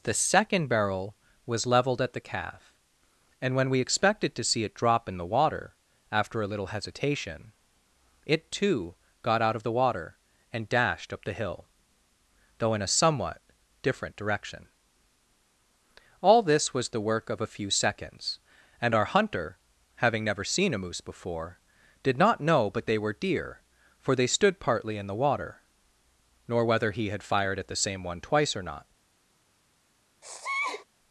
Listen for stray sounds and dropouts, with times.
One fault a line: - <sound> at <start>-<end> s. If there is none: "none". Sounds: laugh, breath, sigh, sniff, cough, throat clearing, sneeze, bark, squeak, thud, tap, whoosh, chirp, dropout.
- sneeze at 30.2-30.8 s